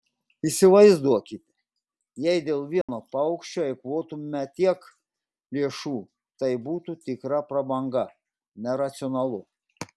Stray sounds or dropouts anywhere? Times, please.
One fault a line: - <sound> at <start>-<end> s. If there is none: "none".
- dropout at 2.8-2.9 s